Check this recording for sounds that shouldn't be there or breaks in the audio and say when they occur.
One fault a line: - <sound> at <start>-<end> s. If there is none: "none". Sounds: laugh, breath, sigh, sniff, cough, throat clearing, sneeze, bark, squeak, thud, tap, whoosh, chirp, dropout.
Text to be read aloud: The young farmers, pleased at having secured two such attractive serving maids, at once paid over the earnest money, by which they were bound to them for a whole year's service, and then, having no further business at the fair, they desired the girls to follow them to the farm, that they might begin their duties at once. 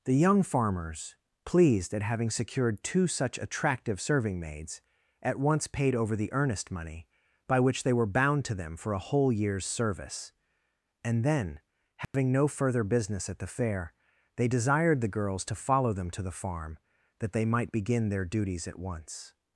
- dropout at 12.0-12.1 s